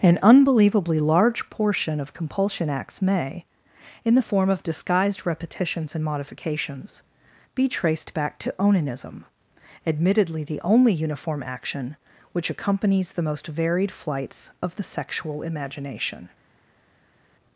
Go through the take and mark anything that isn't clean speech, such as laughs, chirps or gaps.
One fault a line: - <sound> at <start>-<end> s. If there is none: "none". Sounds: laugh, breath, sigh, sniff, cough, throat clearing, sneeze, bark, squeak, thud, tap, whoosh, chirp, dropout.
none